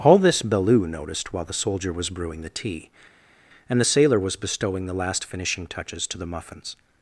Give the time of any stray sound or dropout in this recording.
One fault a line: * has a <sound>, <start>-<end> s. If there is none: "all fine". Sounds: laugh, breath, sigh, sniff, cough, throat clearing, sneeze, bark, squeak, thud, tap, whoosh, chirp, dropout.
all fine